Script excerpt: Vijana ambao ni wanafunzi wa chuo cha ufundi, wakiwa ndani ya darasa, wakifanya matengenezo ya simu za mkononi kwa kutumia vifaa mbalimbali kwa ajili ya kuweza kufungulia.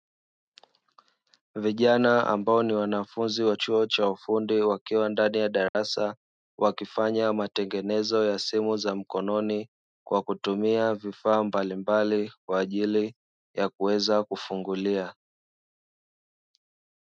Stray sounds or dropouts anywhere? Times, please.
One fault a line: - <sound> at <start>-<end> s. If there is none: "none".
- dropout at 5.7-5.7 s